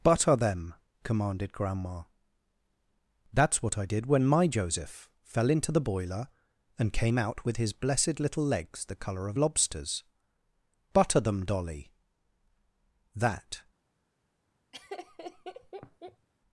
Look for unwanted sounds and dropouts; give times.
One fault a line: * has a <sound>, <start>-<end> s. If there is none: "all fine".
* has a laugh, 14.7-16.3 s